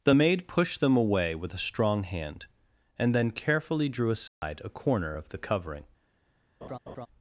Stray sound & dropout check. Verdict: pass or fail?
fail